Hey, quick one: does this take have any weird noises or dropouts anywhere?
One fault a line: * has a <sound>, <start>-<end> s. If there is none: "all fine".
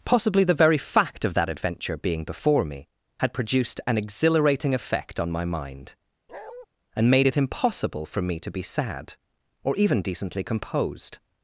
* has a bark, 6.3-6.7 s